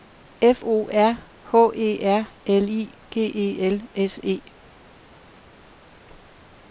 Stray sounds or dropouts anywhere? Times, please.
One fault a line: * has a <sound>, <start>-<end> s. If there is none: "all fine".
all fine